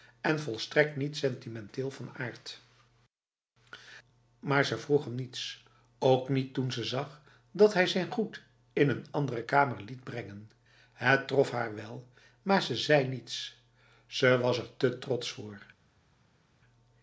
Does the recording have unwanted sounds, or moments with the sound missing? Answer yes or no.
no